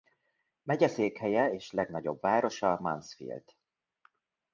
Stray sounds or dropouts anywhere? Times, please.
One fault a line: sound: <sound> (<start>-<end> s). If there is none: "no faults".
no faults